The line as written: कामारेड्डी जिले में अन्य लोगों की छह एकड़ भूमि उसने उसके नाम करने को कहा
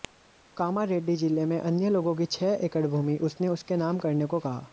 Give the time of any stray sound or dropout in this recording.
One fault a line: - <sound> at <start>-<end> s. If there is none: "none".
none